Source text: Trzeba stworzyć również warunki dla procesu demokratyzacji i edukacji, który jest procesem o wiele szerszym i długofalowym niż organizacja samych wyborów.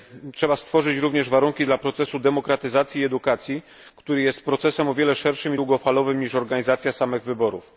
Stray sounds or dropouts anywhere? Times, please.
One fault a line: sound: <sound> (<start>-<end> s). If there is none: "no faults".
no faults